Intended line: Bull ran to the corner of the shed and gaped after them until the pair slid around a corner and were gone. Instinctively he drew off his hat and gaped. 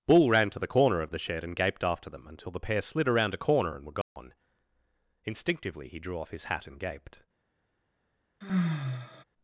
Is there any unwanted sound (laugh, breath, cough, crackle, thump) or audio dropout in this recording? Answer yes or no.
yes